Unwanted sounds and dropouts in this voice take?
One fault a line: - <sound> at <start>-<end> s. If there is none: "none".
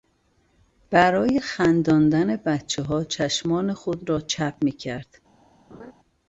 - laugh at 5.7-5.9 s